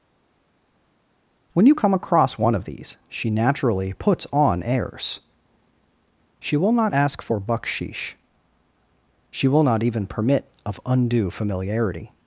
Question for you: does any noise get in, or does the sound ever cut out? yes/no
no